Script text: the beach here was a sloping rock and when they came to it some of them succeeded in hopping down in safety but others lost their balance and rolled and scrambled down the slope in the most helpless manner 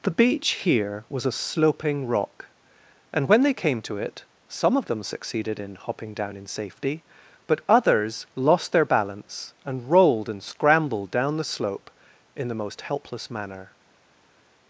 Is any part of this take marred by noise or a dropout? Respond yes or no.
no